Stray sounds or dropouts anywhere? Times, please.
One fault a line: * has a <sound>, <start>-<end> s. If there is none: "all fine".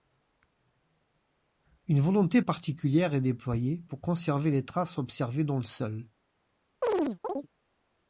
* has a chirp, 6.8-7.5 s